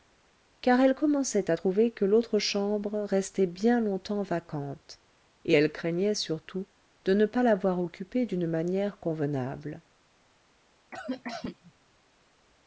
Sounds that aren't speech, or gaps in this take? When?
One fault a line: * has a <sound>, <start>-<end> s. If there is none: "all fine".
* has a cough, 10.9-11.7 s